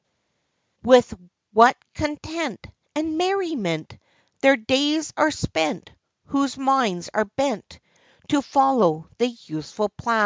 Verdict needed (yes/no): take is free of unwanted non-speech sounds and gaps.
yes